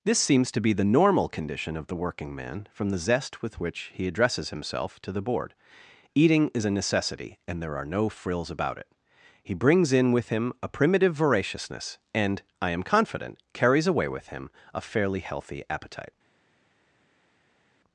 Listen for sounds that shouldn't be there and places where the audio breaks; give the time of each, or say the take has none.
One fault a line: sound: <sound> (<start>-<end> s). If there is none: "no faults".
no faults